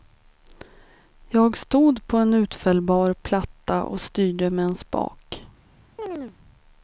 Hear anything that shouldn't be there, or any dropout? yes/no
yes